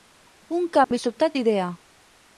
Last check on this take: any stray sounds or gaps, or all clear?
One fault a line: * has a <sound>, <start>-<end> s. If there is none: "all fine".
* has a dropout, 0.8-0.9 s